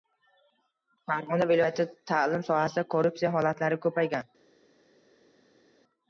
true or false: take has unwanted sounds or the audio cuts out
false